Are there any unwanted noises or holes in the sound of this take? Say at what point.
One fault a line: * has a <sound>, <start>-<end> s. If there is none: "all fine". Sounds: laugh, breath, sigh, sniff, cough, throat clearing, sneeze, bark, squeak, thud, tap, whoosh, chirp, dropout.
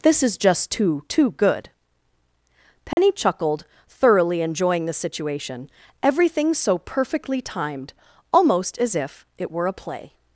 * has a dropout, 2.9-3.0 s